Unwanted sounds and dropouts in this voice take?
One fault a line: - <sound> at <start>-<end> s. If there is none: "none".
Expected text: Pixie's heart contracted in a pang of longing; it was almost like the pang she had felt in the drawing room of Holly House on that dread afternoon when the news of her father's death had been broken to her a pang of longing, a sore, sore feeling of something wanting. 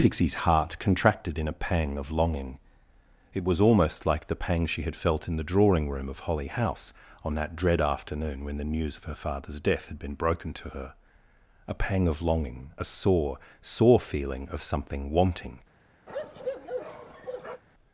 - bark at 16.1-17.6 s